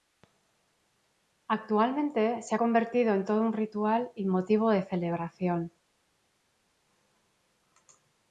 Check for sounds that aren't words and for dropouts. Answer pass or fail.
pass